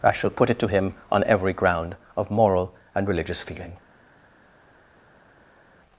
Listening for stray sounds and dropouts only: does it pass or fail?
pass